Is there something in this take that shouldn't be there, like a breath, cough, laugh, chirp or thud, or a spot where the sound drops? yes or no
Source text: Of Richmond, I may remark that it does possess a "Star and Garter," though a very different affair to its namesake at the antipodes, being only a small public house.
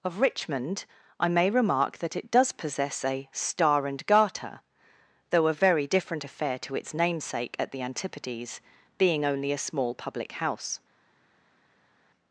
no